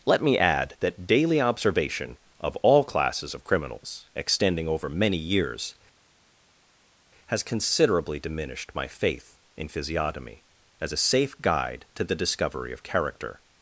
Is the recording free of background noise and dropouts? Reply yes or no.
yes